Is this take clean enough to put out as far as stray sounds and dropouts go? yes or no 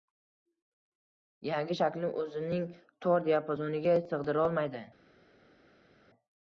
yes